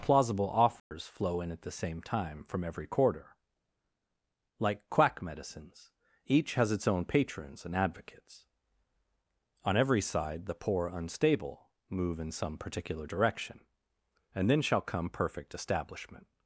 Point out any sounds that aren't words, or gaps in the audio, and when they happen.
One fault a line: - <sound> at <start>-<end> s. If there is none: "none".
- dropout at 0.8-0.9 s